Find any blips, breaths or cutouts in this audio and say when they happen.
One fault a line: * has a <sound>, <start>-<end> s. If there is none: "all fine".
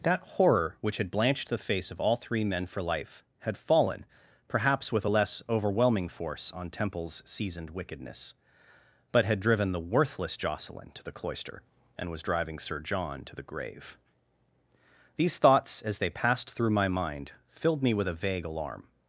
all fine